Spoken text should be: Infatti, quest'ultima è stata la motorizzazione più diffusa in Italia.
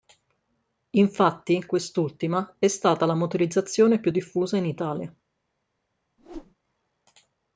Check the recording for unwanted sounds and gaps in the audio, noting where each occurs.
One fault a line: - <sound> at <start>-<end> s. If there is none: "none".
- whoosh at 6.2-6.5 s